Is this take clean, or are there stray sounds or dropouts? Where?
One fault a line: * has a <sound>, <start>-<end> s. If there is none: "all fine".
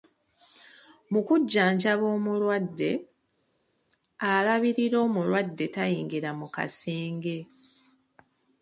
all fine